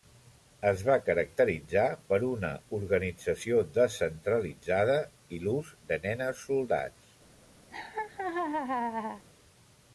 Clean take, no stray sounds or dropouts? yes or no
no